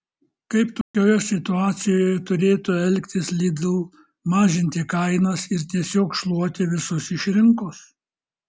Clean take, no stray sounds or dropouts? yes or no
no